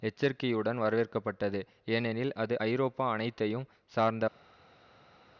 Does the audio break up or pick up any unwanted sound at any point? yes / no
no